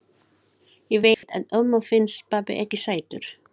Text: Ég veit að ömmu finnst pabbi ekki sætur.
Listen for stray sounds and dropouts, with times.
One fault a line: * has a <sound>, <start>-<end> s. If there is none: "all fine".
* has a dropout, 1.1-1.2 s